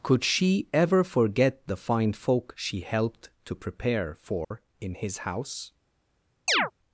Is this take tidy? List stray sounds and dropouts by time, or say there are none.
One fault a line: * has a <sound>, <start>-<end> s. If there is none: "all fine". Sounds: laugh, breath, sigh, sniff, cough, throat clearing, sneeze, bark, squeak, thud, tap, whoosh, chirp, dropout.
* has a dropout, 4.4-4.5 s
* has a chirp, 6.5-6.7 s